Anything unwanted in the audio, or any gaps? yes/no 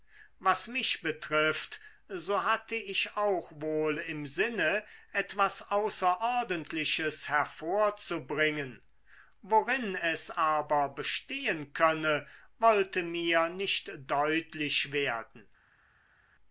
no